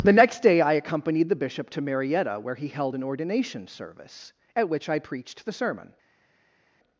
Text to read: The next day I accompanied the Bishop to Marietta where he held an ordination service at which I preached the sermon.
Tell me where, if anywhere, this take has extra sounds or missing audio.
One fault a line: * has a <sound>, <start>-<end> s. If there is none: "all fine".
all fine